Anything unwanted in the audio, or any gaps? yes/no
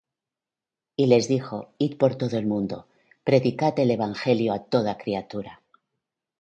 no